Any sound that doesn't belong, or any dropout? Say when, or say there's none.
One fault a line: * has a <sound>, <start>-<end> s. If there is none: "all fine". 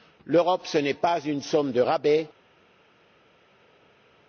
all fine